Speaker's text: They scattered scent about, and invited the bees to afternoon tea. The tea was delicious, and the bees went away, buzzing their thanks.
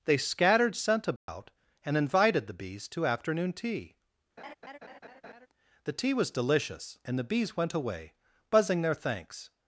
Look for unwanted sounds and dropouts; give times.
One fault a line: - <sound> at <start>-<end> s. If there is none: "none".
- dropout at 1.2-1.3 s
- laugh at 4.4-5.5 s